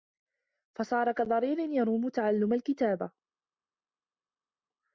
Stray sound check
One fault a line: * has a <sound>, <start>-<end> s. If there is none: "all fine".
all fine